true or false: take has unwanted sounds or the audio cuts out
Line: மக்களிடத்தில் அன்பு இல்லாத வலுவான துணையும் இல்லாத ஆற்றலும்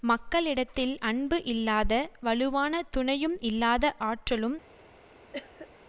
true